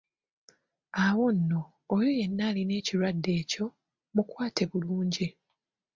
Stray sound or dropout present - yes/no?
no